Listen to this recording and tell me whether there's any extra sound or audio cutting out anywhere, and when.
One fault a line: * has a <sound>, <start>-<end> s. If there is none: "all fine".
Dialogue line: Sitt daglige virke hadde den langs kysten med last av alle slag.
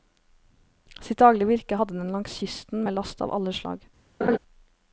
* has a laugh, 4.2-4.4 s